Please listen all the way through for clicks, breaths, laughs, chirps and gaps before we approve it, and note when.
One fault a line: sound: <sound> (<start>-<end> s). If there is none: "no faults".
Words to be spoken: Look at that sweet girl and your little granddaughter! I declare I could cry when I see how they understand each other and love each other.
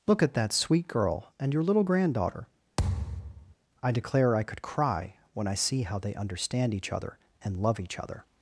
sound: thud (2.8-3.6 s)